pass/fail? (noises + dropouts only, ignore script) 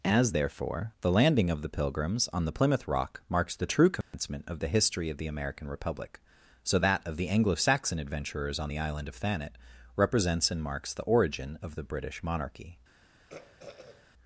fail